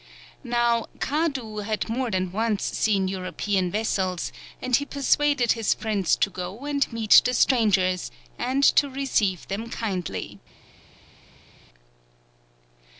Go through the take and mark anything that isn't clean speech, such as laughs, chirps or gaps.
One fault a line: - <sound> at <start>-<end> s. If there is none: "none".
none